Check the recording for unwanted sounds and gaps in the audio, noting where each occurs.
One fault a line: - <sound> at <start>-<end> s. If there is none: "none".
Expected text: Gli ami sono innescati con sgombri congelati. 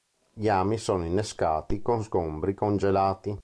none